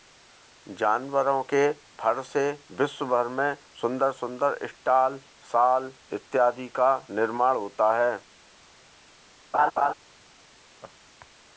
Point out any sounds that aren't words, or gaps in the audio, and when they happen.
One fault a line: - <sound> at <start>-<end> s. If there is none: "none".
- laugh at 9.5-9.9 s
- laugh at 10.8-10.9 s